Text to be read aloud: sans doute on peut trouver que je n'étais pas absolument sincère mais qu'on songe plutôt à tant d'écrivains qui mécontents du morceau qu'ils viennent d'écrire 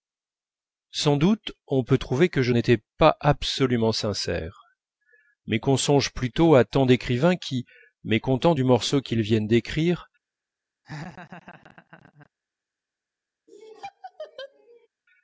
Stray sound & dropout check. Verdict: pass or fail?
fail